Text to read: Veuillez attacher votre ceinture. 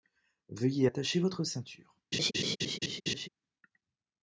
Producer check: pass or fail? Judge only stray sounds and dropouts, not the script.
fail